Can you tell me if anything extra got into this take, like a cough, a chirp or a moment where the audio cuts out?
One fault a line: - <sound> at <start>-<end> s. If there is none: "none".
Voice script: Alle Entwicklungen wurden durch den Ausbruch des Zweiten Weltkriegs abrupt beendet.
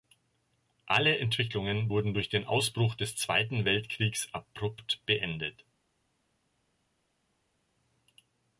none